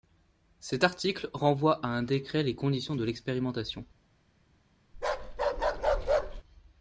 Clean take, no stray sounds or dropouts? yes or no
no